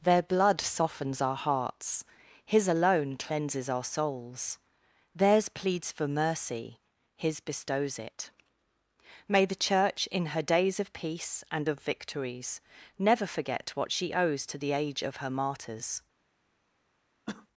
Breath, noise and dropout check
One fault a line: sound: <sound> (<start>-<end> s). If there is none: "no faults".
sound: cough (17.3-17.5 s)